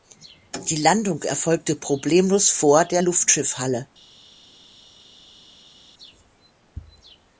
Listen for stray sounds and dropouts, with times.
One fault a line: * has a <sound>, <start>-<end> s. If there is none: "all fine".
all fine